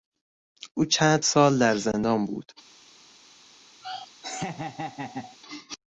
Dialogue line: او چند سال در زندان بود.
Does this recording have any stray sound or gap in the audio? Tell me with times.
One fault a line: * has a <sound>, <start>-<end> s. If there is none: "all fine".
* has a laugh, 3.8-5.4 s